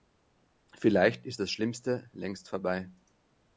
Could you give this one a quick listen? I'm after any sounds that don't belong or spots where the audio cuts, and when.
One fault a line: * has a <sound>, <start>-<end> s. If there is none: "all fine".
all fine